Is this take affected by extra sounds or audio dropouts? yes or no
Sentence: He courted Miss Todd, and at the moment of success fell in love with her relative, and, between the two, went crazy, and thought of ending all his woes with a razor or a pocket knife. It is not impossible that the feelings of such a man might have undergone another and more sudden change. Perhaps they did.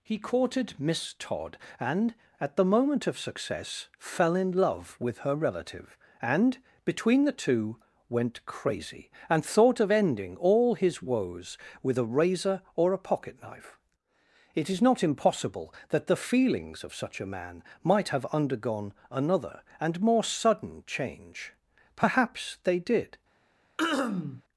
yes